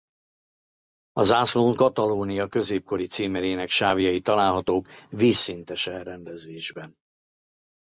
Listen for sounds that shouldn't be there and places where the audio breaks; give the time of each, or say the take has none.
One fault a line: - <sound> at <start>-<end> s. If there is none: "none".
none